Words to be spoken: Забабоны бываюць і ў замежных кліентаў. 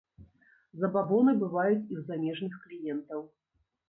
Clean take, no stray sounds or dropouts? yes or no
yes